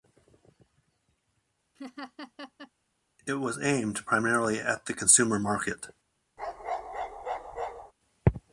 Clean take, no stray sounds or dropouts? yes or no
no